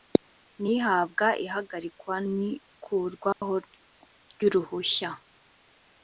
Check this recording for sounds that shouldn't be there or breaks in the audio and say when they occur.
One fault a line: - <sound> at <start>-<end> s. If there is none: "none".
- dropout at 3.3-3.4 s